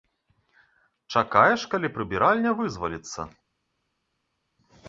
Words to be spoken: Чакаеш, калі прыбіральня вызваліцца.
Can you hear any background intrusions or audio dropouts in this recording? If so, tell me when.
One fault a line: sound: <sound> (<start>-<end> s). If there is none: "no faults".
no faults